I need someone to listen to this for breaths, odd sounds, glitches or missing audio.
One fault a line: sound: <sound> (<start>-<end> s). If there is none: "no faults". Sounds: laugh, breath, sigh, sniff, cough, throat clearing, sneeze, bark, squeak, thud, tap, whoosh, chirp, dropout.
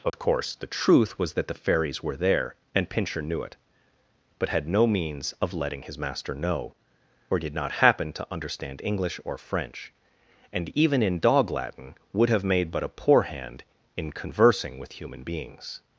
sound: dropout (0.1-0.1 s)